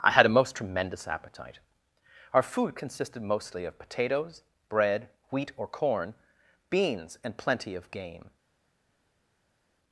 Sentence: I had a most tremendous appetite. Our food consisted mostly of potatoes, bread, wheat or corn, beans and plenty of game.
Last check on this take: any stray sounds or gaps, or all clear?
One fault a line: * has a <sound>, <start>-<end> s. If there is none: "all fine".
all fine